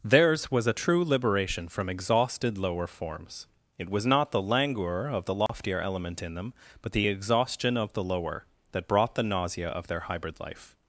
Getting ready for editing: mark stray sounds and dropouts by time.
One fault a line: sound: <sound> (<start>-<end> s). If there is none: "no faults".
sound: dropout (5.5-5.5 s)